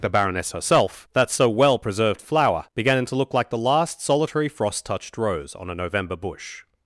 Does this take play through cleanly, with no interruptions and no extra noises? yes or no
yes